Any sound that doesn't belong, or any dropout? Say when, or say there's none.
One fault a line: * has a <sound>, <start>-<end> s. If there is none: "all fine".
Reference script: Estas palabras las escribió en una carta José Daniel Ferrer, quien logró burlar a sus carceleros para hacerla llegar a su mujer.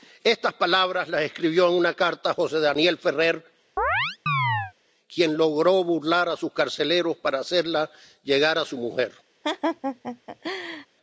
* has a chirp, 3.8-4.7 s
* has a laugh, 9.4-10.9 s